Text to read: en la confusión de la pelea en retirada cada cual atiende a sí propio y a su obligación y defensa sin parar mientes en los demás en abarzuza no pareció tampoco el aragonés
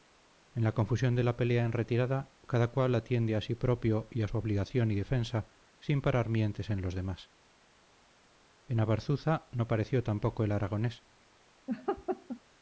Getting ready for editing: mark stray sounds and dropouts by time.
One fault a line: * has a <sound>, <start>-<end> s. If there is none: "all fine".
* has a laugh, 11.7-12.4 s